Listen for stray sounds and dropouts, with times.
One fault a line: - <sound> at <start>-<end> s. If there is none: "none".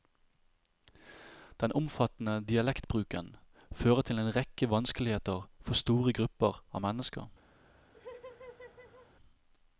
- laugh at 7.9-9.1 s